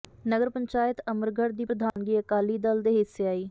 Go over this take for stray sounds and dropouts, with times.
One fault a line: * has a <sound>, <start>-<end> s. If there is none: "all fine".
* has a dropout, 1.9-2.0 s